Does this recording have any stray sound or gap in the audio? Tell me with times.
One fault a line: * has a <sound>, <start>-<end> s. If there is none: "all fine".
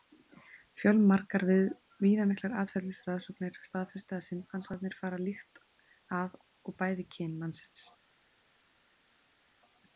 all fine